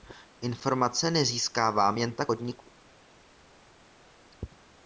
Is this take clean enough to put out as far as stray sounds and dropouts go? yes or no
yes